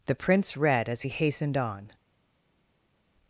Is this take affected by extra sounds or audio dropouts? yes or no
no